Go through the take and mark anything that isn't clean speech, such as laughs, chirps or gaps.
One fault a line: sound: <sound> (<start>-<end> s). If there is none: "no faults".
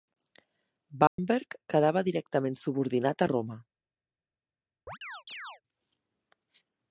sound: dropout (1.1-1.2 s)
sound: chirp (4.9-5.6 s)